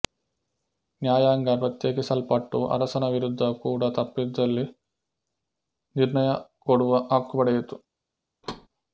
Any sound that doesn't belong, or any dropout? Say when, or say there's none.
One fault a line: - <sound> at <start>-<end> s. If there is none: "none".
- thud at 8.4-8.7 s